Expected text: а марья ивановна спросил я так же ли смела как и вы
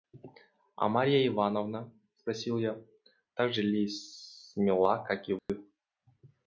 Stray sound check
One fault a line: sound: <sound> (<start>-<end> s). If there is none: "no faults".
sound: dropout (5.4-5.5 s)